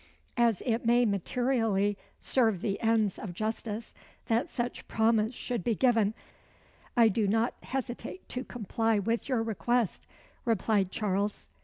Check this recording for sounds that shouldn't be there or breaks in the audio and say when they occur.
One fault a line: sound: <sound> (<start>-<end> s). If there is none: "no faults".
no faults